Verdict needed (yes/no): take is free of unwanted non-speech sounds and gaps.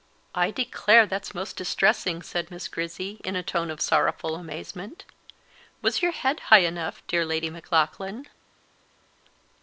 yes